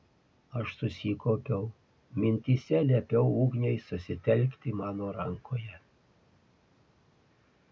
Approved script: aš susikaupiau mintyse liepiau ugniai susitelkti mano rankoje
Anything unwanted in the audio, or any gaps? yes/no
no